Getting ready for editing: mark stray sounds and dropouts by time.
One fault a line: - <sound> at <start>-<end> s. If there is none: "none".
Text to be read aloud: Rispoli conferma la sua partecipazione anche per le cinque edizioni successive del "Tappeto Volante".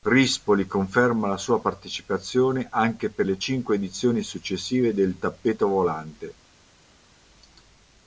none